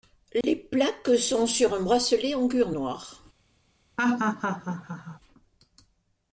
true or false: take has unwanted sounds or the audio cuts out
true